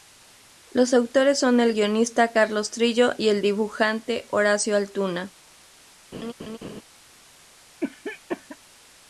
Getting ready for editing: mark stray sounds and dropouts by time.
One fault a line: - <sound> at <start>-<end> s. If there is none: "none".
- laugh at 6.1-6.8 s
- cough at 7.8-8.6 s